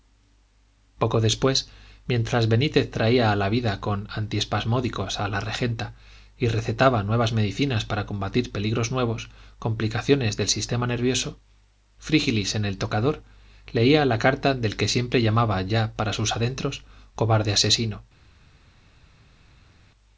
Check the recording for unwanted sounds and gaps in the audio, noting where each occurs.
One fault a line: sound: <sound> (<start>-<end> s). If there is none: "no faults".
no faults